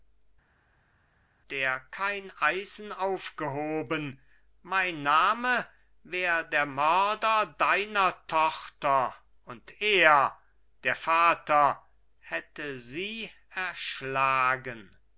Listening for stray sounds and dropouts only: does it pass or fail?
pass